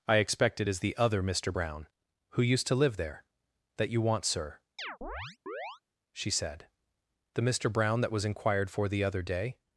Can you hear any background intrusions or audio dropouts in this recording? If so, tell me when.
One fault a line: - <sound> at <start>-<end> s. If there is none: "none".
- chirp at 4.8-5.8 s